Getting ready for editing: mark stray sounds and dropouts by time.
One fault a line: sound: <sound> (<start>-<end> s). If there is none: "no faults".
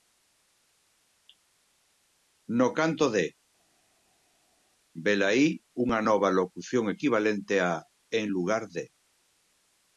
no faults